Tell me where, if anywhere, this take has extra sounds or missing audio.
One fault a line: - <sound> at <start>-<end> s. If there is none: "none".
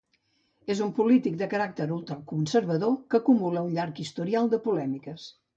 none